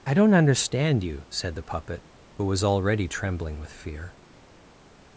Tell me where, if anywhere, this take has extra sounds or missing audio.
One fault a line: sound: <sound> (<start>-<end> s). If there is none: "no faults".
no faults